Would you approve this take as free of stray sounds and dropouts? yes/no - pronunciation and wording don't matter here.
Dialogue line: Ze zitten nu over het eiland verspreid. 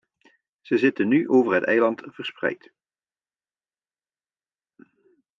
yes